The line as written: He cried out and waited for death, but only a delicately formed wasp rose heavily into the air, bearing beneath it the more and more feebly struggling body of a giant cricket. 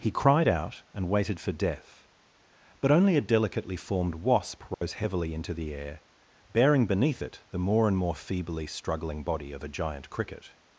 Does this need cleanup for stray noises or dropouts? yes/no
yes